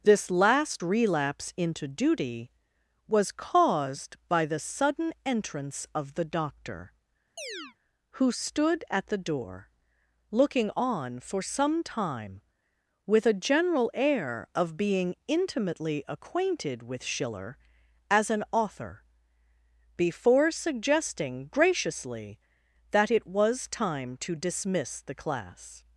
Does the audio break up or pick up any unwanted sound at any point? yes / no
yes